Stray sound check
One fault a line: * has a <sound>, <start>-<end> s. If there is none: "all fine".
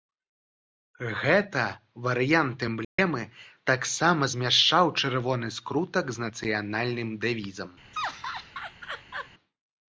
* has a dropout, 2.8-3.0 s
* has a laugh, 7.9-9.3 s